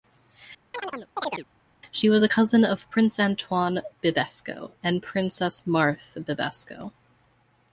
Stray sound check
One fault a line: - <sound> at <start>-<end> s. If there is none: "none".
- chirp at 0.7-1.5 s